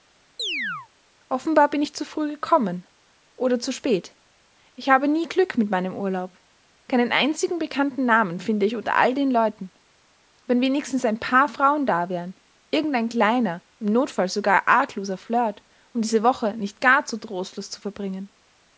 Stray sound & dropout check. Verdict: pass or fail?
fail